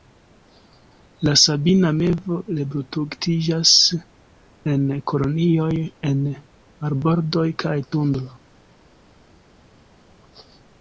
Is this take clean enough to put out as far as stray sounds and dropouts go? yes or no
yes